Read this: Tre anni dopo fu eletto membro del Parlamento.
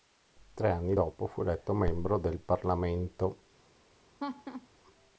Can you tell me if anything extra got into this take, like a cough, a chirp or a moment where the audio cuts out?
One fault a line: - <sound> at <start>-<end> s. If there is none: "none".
- laugh at 4.2-4.7 s